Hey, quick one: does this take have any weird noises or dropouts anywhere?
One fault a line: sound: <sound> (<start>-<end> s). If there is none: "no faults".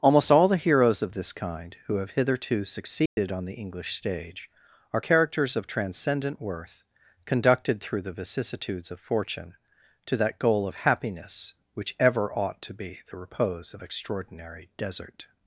sound: dropout (3.1-3.2 s)